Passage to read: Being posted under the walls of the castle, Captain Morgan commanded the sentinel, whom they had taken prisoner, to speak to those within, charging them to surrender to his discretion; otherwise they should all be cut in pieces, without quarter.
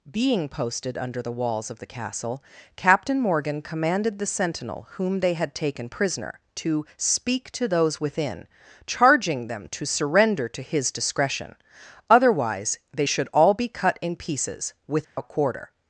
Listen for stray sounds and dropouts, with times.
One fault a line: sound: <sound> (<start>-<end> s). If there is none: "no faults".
sound: dropout (15.0-15.2 s)